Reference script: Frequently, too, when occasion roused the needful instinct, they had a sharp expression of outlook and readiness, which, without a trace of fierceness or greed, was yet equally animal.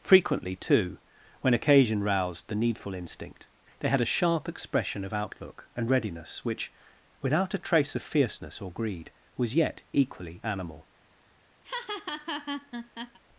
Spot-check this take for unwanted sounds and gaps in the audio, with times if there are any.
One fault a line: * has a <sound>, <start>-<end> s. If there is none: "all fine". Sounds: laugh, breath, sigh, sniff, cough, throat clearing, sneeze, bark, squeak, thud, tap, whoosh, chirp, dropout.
* has a laugh, 11.6-13.2 s